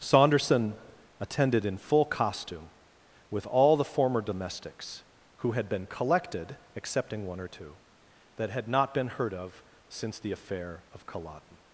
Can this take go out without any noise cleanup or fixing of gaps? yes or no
yes